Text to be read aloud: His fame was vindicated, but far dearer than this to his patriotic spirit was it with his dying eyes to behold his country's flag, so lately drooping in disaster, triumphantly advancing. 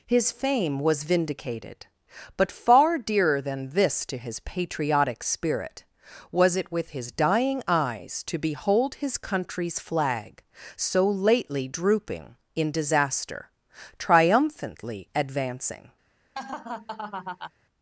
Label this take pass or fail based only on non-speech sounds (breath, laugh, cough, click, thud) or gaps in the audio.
fail